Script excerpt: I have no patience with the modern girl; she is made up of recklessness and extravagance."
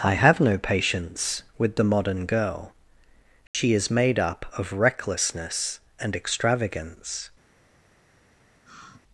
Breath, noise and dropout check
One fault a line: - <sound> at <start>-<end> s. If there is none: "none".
- dropout at 3.5-3.5 s
- sigh at 8.6-9.0 s